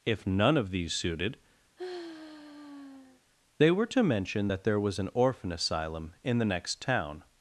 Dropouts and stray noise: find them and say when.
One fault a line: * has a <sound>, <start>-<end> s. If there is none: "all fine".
* has a sigh, 1.8-3.2 s